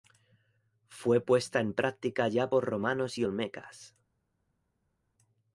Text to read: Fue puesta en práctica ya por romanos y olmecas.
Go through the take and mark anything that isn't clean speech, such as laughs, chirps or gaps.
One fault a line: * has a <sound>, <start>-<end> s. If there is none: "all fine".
all fine